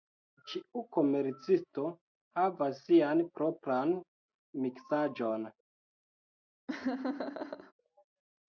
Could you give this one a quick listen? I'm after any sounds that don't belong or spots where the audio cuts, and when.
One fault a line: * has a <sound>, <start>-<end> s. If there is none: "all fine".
* has a laugh, 6.7-7.7 s